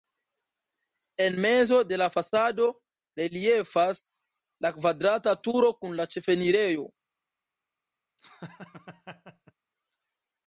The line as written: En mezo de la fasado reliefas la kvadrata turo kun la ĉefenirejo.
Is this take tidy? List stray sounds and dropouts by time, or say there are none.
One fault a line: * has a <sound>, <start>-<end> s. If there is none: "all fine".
* has a laugh, 8.2-9.5 s